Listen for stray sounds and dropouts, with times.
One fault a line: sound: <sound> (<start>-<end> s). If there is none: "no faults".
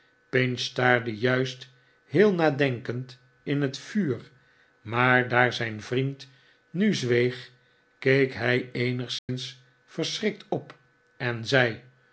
sound: dropout (9.2-9.3 s)